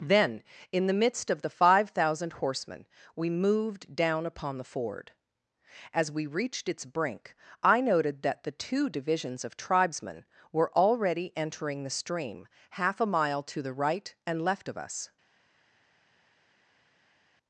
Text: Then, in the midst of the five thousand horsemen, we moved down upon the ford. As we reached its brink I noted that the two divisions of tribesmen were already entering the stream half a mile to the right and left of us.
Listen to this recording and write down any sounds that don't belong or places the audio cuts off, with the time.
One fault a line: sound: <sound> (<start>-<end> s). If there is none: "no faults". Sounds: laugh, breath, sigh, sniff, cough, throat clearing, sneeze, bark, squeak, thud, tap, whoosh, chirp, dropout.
no faults